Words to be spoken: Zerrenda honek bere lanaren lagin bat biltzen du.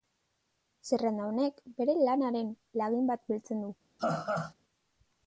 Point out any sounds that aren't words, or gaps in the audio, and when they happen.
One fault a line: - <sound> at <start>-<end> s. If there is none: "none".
- laugh at 4.0-4.5 s